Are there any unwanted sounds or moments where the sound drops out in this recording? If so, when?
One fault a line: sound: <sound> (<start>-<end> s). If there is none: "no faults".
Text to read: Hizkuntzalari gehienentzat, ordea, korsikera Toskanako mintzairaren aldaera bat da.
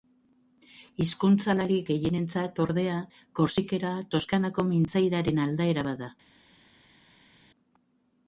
no faults